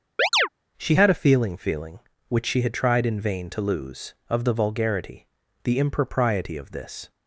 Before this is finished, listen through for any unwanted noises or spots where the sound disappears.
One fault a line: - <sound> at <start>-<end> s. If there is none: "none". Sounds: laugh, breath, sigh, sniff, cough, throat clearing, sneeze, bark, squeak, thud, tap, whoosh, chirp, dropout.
- chirp at 0.2-0.5 s